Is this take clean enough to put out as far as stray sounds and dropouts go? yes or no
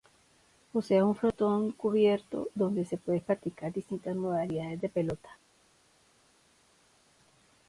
yes